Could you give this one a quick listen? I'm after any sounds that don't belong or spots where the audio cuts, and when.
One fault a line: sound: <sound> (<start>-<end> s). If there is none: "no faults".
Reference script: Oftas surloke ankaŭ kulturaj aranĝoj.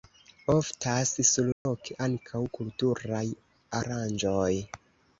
sound: dropout (1.5-1.7 s)